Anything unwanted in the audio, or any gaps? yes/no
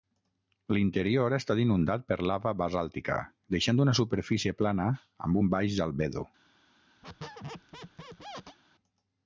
yes